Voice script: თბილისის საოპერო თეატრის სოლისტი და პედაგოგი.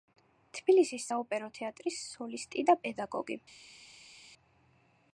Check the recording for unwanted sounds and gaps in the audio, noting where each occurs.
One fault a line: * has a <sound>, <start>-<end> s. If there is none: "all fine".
all fine